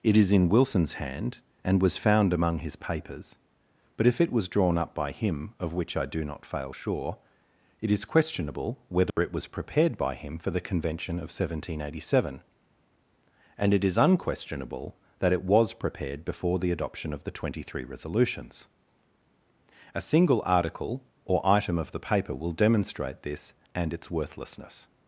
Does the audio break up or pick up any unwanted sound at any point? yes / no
yes